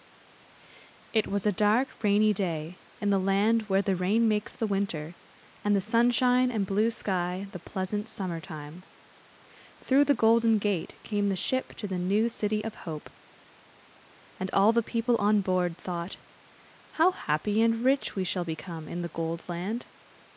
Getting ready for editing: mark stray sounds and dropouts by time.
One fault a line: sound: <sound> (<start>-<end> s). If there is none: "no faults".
no faults